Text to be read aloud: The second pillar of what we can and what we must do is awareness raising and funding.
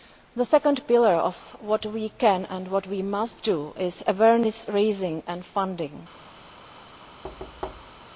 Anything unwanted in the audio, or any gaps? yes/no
yes